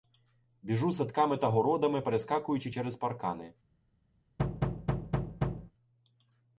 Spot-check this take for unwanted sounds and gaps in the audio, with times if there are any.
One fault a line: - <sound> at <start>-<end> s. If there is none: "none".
- thud at 4.4-5.7 s